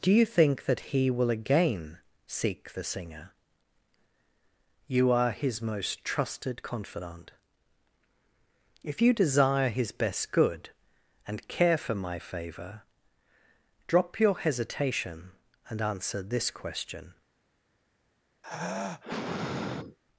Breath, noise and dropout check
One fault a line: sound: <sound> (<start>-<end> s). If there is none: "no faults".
sound: sigh (18.4-20.0 s)